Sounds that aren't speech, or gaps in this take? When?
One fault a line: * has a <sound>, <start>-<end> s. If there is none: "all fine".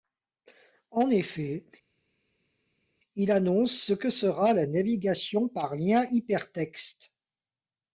all fine